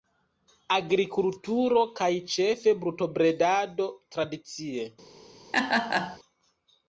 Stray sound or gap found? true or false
true